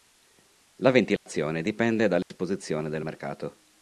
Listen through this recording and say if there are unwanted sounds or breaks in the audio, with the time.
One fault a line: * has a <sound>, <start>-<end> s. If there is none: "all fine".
* has a dropout, 1.2-1.3 s
* has a dropout, 2.2-2.3 s